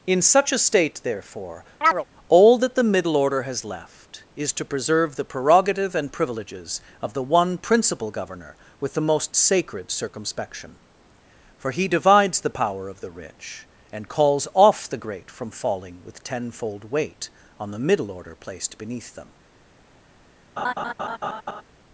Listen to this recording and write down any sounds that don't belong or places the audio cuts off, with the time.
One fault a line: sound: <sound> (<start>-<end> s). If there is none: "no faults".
sound: chirp (1.8-2.0 s)
sound: laugh (20.6-21.6 s)